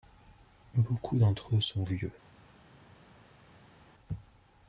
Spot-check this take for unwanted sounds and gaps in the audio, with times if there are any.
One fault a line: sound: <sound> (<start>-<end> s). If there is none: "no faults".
no faults